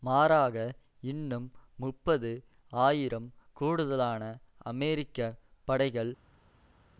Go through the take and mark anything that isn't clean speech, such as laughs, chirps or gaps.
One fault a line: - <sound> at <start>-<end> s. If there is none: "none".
none